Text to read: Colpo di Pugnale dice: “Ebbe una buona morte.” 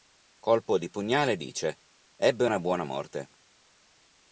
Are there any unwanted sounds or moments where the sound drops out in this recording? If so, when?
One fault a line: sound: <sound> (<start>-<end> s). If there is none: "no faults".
no faults